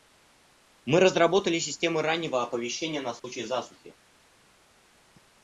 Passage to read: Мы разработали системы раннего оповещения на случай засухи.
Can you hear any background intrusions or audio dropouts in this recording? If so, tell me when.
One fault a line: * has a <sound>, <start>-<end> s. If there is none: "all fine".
* has a dropout, 3.2-3.2 s